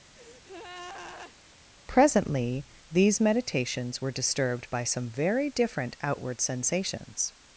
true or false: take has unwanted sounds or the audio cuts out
true